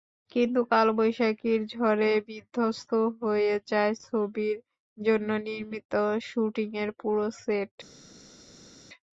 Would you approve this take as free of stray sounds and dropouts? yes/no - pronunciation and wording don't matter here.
yes